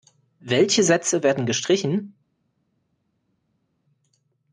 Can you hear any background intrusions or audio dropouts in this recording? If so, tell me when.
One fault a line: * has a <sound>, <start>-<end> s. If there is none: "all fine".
all fine